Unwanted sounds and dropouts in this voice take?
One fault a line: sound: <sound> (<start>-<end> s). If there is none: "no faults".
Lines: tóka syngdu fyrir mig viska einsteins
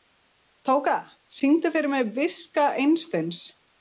no faults